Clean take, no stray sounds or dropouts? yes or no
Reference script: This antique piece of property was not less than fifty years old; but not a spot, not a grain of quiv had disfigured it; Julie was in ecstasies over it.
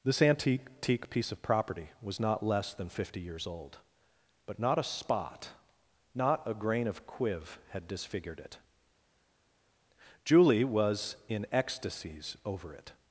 yes